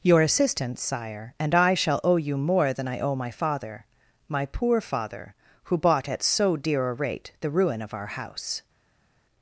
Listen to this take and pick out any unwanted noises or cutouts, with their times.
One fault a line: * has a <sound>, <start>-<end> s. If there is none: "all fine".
all fine